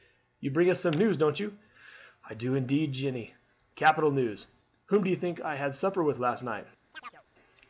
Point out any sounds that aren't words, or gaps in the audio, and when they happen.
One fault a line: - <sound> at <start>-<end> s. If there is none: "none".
- chirp at 6.9-7.2 s